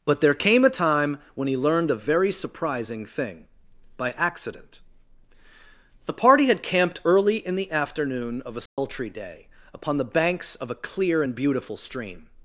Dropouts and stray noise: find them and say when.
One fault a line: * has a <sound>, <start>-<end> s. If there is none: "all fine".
* has a dropout, 8.7-8.8 s